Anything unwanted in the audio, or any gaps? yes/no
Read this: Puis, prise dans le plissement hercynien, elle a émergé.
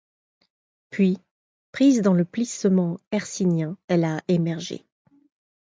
no